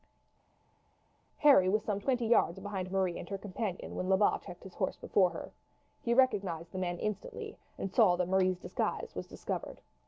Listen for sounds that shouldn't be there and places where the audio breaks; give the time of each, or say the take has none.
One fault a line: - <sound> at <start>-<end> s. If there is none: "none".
none